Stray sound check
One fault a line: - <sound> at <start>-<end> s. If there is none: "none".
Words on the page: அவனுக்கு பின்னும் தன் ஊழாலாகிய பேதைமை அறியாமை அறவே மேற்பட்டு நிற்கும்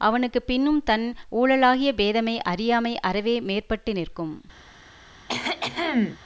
- cough at 5.3-6.2 s